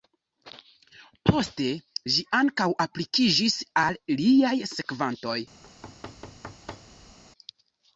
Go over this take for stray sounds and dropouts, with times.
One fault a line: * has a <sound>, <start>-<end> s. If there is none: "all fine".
* has a thud, 5.6-7.2 s